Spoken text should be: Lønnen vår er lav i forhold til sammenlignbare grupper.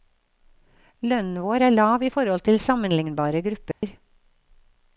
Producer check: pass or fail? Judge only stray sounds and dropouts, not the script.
fail